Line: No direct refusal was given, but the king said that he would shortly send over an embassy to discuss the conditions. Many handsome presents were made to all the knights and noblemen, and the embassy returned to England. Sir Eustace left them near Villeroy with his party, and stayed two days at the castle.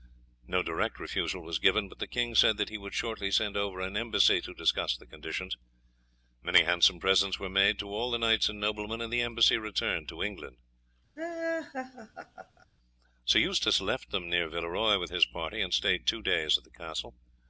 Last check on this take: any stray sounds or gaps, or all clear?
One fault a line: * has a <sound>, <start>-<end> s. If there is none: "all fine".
* has a laugh, 11.2-12.7 s